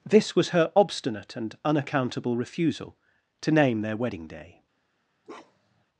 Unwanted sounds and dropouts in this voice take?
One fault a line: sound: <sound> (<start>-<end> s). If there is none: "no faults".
sound: bark (5.2-5.8 s)